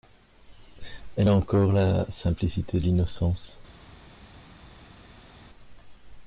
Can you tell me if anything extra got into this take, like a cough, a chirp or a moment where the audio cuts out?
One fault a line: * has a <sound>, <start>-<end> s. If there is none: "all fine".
all fine